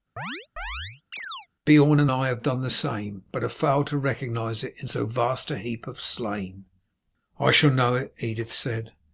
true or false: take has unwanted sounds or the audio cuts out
true